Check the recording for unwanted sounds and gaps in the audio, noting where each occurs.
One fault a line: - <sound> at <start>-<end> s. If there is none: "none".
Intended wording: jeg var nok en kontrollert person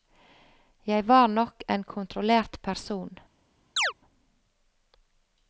- chirp at 3.8-3.9 s